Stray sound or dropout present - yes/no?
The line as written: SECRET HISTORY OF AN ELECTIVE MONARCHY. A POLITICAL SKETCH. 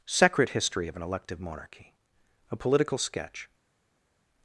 no